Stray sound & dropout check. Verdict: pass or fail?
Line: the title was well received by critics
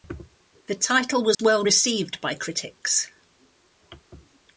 fail